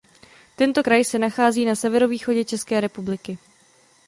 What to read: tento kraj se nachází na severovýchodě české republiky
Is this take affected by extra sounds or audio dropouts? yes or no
no